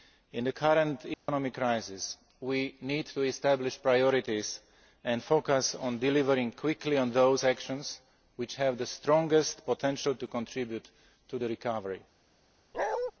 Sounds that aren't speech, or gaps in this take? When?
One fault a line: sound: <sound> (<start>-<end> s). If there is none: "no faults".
sound: dropout (1.1-1.3 s)
sound: bark (12.7-13.1 s)